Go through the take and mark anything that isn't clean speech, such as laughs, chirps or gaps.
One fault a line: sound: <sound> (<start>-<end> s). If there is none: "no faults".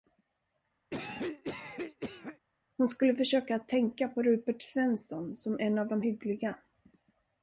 sound: cough (0.9-2.4 s)